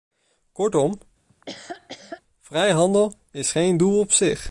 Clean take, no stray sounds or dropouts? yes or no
no